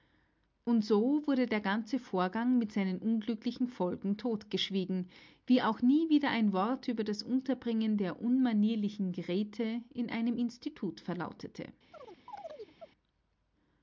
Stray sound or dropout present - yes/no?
yes